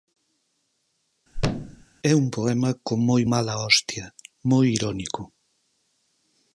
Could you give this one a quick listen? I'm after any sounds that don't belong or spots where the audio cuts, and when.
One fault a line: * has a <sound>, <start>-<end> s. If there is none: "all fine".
* has a thud, 1.3-1.9 s